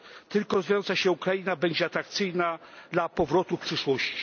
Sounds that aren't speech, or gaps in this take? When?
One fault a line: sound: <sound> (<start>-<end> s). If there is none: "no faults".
no faults